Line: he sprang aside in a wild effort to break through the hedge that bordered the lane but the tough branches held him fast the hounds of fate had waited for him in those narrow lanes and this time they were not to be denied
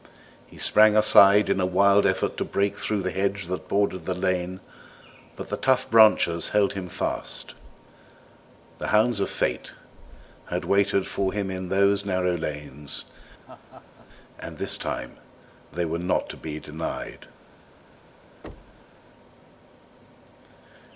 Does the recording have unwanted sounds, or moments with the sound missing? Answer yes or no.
yes